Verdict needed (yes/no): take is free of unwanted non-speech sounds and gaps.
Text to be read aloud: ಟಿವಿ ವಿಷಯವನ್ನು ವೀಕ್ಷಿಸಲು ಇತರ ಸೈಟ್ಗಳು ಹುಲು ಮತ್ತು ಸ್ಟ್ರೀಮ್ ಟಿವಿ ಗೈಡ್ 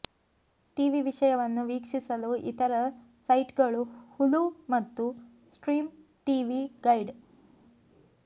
yes